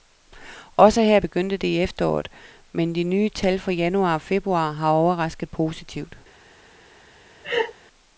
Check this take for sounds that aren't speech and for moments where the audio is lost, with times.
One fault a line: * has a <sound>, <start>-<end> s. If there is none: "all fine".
* has a laugh, 7.4-7.7 s